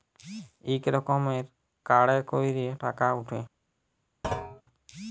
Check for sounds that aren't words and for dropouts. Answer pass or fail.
fail